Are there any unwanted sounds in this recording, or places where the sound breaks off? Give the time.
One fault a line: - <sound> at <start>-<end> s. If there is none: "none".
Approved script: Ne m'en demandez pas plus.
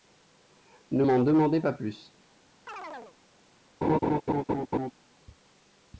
- chirp at 2.7-3.2 s
- laugh at 3.8-4.9 s